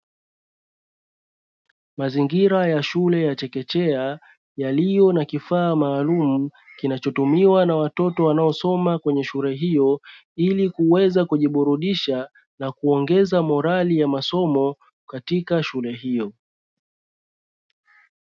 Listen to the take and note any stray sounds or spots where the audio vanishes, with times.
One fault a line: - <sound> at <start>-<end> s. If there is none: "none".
none